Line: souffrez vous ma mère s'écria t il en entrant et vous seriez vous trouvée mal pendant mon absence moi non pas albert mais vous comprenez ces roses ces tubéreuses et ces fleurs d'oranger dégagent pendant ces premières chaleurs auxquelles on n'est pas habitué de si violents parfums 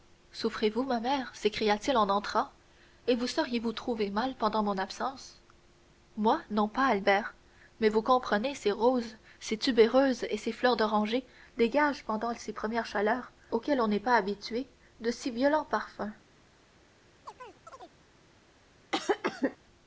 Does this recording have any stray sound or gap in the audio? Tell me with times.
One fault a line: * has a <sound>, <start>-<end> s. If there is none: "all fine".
* has a chirp, 17.3-18.0 s
* has a cough, 18.9-19.6 s